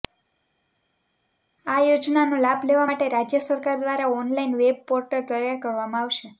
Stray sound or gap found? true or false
false